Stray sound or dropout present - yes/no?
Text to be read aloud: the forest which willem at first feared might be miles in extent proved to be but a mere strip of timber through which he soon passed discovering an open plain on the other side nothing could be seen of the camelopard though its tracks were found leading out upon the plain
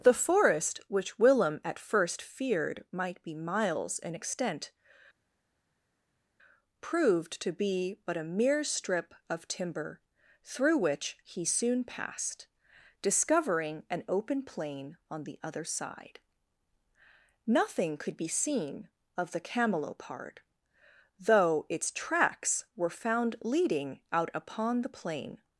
no